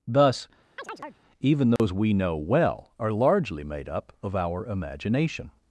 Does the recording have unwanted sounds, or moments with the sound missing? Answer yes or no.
yes